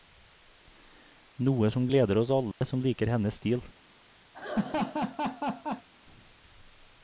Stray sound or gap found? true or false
true